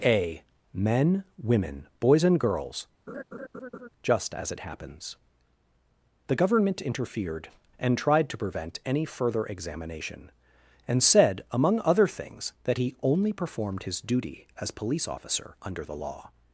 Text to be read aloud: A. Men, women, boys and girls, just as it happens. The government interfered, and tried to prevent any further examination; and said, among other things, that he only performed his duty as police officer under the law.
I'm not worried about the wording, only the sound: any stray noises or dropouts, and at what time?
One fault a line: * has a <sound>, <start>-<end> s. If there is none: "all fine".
* has a laugh, 3.1-3.9 s